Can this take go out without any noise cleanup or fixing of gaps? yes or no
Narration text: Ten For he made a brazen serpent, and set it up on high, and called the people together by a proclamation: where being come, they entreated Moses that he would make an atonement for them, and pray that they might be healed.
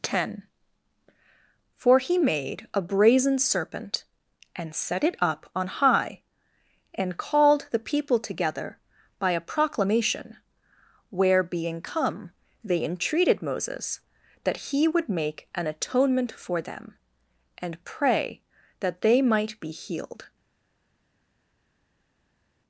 yes